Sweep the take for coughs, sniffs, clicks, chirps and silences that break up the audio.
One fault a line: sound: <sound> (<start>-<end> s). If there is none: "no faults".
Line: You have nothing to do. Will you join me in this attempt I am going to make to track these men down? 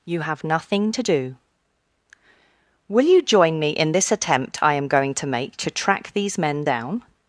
no faults